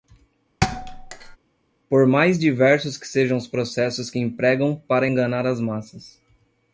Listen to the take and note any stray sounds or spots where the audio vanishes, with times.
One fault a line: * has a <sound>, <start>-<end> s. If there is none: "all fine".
* has a thud, 0.6-1.4 s